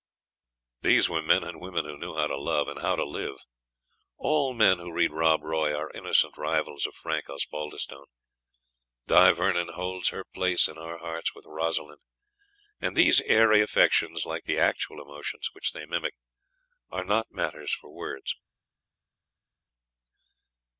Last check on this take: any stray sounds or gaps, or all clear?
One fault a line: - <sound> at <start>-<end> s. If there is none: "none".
none